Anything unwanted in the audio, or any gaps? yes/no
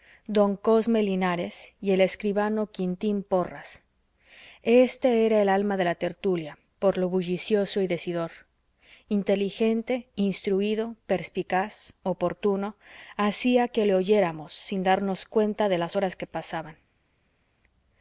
no